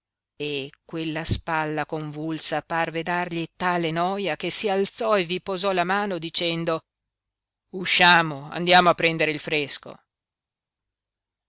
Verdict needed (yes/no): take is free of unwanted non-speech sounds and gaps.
yes